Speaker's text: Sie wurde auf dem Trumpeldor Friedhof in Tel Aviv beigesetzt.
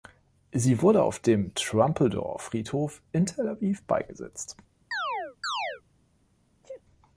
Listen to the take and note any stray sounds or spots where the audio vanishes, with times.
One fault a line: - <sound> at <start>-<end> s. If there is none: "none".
- chirp at 4.9-5.8 s
- sneeze at 6.6-6.8 s